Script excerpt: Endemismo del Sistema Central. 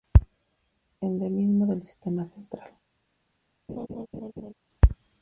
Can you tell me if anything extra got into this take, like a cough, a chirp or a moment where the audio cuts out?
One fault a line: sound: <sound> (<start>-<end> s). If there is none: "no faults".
sound: laugh (3.7-4.5 s)